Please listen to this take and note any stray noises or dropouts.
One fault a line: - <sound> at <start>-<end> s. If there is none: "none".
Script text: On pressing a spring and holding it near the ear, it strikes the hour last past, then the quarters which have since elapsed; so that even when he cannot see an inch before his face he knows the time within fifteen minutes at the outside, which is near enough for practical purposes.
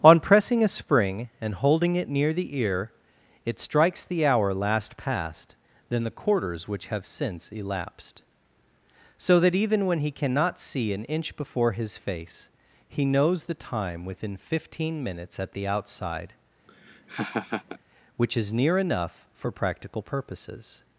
- laugh at 16.7-17.8 s